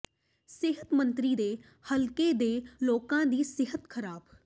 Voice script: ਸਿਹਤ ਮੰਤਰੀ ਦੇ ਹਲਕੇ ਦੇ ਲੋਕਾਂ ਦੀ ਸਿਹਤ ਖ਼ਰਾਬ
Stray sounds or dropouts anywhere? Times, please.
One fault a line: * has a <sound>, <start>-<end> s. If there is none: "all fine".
all fine